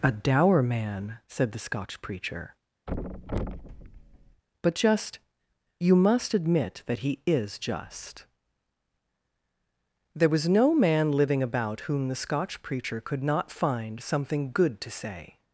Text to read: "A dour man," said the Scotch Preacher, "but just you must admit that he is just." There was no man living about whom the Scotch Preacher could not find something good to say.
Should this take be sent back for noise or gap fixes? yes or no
yes